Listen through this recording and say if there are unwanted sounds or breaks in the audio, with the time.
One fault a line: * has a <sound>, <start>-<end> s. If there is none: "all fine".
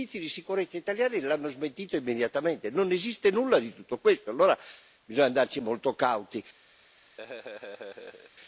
* has a laugh, 7.2-8.3 s